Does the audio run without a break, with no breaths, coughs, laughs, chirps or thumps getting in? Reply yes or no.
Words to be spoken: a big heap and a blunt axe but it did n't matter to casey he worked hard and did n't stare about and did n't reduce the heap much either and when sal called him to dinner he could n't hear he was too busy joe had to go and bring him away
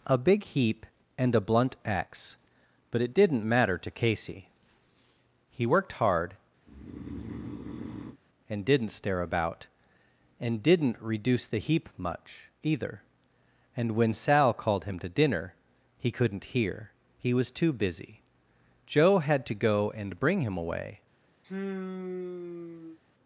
no